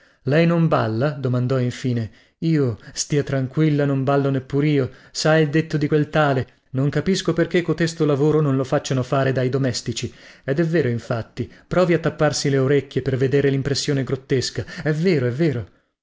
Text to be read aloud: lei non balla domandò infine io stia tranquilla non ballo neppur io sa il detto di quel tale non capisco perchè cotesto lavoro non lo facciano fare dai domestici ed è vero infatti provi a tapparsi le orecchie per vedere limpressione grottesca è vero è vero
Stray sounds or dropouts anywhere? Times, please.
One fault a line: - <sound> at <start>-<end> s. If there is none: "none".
none